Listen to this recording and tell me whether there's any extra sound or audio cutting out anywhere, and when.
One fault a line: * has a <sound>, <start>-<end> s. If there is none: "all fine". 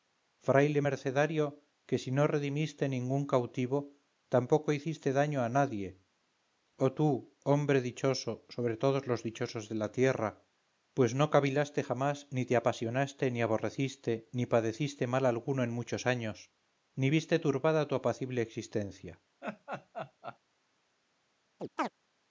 * has a laugh, 19.4-20.4 s
* has a chirp, 21.6-21.9 s